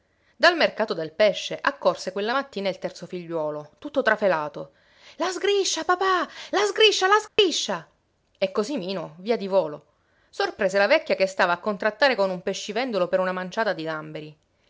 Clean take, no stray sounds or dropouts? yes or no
no